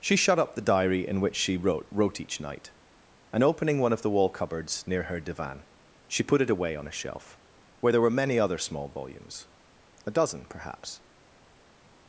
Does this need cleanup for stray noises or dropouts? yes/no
no